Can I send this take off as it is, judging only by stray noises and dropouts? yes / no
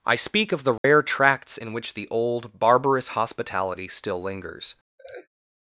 no